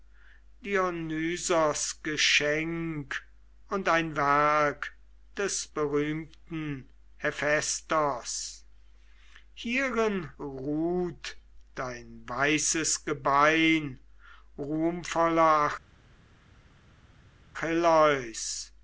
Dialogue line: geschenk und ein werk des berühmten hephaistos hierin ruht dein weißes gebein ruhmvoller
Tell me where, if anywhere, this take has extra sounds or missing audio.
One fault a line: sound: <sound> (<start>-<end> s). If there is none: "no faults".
no faults